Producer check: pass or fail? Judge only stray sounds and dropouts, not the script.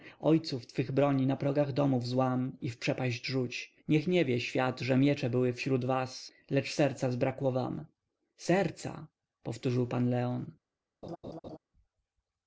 fail